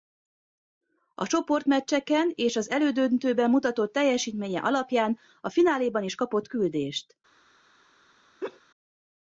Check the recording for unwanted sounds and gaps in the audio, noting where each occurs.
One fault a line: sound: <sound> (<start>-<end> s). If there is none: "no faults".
sound: laugh (8.4-8.6 s)